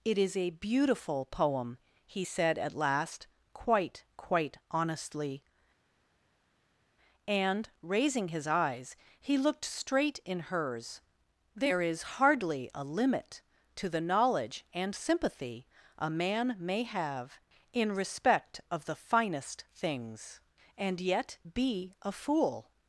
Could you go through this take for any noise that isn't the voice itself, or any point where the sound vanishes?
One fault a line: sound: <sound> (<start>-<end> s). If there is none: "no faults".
no faults